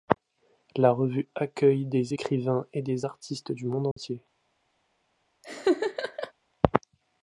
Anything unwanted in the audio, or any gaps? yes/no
yes